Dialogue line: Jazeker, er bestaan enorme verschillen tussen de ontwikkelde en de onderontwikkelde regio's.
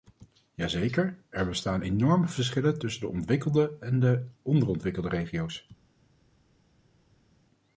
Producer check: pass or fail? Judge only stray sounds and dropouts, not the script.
pass